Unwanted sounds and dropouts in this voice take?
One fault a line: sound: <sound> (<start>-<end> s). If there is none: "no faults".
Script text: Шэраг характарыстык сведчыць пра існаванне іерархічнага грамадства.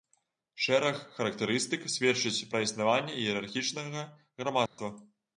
sound: dropout (4.7-4.8 s)